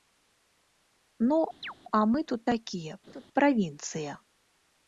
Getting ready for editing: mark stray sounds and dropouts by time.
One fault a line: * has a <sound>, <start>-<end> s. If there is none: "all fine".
* has a chirp, 1.6-1.7 s
* has a laugh, 3.1-3.3 s